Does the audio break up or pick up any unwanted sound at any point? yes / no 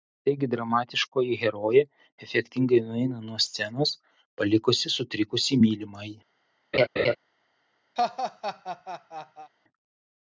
yes